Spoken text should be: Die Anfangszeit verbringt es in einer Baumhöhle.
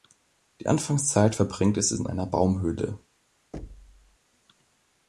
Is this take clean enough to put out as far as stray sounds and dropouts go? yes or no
no